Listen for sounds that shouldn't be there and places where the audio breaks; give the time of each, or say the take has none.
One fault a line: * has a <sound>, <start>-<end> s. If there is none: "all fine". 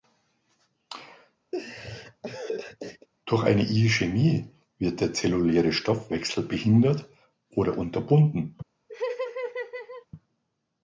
* has a laugh, 1.5-3.1 s
* has a laugh, 8.9-10.1 s